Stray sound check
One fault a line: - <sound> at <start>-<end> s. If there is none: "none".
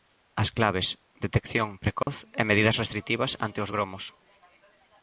- dropout at 2.0-2.1 s